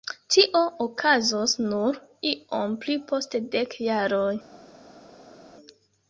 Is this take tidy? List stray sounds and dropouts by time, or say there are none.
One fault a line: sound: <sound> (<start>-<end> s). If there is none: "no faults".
no faults